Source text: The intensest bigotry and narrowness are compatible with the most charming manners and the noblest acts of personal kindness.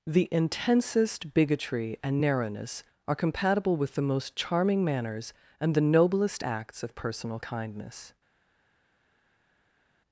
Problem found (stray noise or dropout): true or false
false